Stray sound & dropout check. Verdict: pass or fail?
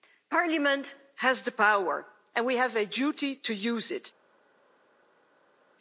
pass